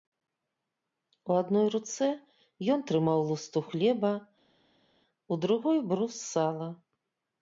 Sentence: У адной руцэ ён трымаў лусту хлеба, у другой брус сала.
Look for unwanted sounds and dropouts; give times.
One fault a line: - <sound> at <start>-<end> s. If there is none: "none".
none